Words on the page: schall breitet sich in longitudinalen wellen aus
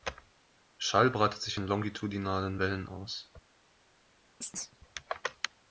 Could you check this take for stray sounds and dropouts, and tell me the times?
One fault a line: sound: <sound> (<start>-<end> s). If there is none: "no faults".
sound: chirp (4.4-4.8 s)